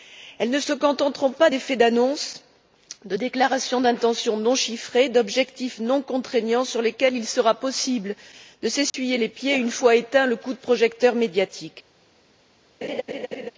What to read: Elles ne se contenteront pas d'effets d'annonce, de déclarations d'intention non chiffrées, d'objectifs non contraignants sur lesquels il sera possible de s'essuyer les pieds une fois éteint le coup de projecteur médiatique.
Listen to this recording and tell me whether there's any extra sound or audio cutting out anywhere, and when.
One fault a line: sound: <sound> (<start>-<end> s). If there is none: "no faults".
sound: dropout (8.9-8.9 s)
sound: laugh (12.8-13.5 s)